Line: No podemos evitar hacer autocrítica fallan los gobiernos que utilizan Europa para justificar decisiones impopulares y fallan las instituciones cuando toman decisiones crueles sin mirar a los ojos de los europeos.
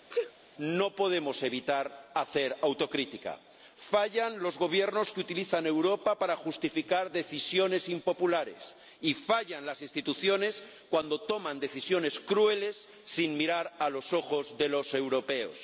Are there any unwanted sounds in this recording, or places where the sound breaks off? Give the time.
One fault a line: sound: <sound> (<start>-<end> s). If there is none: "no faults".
sound: sneeze (0.1-0.3 s)